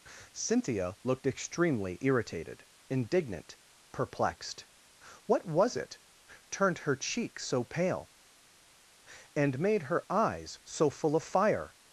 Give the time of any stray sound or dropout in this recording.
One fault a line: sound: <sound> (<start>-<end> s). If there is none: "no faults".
no faults